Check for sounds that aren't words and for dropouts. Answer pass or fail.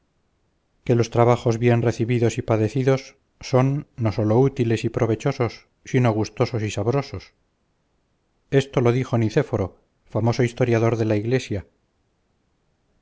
pass